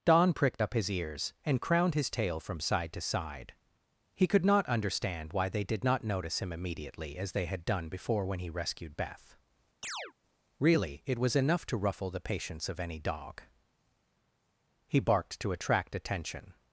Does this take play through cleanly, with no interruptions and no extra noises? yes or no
no